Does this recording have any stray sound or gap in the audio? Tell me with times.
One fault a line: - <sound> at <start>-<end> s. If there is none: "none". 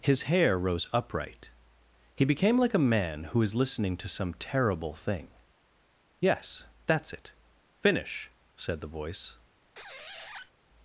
- squeak at 9.8-10.5 s